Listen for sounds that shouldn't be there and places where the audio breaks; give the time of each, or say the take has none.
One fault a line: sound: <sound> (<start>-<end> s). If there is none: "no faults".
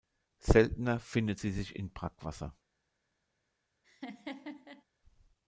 sound: laugh (3.8-4.8 s)